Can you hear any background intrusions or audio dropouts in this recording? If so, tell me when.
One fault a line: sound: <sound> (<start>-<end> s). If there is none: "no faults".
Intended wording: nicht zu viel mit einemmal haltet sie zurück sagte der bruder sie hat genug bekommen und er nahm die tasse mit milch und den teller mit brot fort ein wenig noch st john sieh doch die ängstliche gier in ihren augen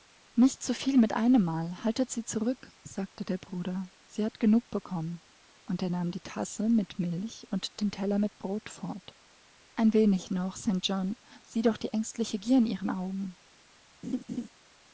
sound: laugh (14.0-14.5 s)